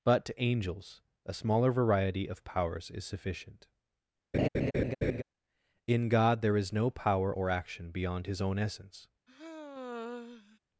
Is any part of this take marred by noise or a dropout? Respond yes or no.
yes